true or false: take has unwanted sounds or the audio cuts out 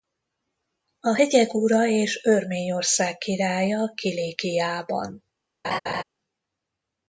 true